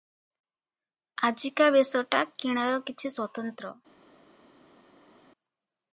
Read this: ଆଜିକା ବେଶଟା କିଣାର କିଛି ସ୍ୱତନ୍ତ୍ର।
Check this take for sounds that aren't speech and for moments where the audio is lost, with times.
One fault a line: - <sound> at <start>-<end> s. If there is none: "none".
none